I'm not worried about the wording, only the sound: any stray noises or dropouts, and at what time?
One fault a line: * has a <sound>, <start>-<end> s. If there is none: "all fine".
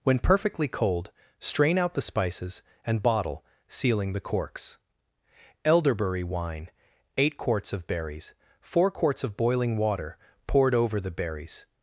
all fine